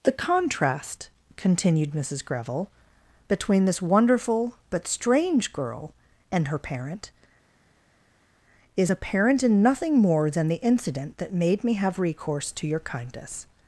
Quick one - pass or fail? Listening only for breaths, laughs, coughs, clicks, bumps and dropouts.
pass